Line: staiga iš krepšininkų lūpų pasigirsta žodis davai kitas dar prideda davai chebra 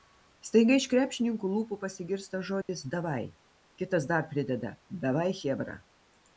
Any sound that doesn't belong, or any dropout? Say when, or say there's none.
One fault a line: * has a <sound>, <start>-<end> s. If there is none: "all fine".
* has a dropout, 2.6-2.7 s